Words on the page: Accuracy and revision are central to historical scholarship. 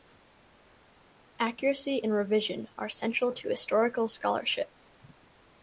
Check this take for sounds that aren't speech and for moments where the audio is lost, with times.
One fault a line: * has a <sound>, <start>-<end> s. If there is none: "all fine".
all fine